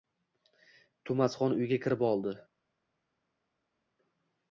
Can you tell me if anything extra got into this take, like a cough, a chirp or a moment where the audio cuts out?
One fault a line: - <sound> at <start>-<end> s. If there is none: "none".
none